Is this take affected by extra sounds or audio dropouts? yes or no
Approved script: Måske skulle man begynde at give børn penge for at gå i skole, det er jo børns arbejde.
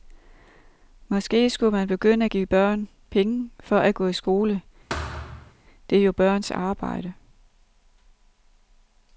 yes